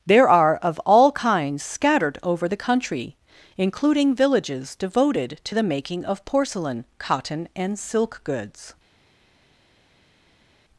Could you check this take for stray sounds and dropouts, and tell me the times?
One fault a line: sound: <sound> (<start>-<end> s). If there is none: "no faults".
no faults